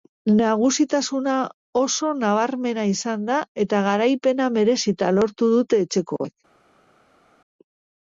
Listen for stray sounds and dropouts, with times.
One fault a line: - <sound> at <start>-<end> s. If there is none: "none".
none